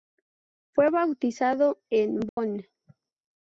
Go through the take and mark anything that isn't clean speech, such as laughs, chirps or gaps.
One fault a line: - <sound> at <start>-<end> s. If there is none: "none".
- dropout at 2.3-2.4 s